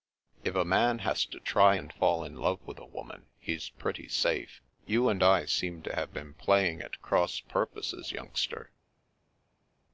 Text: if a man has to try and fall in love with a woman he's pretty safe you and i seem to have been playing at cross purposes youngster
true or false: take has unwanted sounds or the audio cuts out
false